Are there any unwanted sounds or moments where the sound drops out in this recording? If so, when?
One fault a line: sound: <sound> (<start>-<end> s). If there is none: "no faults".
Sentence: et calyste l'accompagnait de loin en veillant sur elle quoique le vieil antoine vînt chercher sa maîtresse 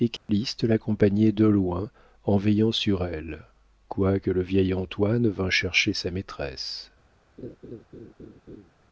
sound: dropout (0.2-0.3 s)
sound: laugh (7.4-8.7 s)